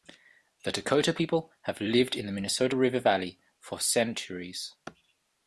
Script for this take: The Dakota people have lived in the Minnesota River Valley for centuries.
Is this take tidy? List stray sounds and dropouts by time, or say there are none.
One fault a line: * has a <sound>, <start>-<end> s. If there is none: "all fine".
all fine